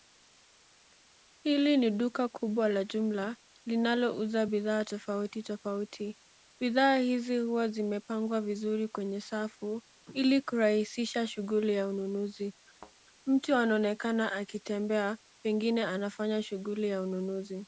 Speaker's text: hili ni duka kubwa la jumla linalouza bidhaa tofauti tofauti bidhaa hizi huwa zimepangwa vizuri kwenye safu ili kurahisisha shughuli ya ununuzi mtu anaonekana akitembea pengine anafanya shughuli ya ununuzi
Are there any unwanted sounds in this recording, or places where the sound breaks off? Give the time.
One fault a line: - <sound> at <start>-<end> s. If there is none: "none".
- thud at 12.7-13.0 s